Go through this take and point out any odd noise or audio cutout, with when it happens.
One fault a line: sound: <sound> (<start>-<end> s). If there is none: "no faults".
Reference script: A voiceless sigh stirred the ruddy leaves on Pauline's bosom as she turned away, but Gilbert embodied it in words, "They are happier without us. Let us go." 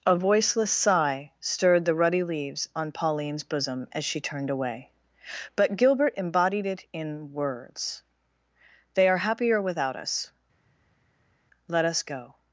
no faults